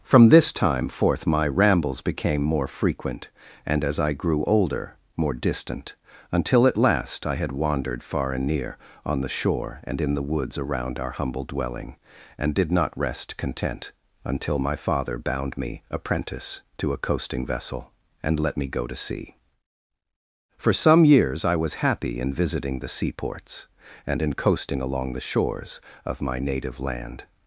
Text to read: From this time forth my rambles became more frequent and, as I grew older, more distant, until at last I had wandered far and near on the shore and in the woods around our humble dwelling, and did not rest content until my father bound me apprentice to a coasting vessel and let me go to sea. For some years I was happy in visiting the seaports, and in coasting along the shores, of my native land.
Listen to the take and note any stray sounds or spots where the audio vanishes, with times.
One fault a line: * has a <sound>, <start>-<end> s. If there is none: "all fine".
all fine